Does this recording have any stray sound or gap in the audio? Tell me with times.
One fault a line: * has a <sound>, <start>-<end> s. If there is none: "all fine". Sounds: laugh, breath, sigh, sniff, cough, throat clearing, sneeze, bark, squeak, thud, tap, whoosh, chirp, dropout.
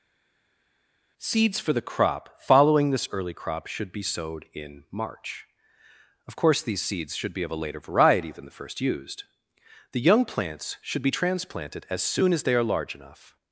all fine